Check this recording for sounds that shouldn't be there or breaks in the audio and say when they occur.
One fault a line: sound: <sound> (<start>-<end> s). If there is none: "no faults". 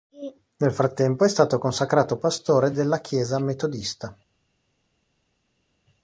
no faults